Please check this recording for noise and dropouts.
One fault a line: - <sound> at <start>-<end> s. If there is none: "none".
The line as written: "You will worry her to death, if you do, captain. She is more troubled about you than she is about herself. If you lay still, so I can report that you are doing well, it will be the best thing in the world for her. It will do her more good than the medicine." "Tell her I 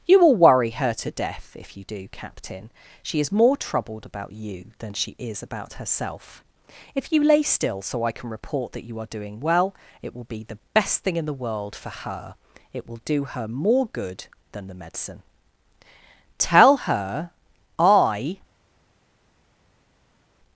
none